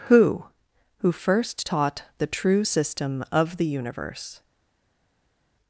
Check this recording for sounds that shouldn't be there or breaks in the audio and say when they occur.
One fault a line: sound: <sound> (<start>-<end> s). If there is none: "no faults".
no faults